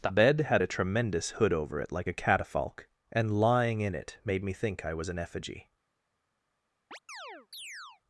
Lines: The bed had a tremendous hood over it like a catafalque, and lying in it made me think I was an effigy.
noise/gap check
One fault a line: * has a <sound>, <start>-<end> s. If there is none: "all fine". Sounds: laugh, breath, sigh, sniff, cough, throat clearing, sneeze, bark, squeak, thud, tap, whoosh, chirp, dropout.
* has a chirp, 6.9-8.0 s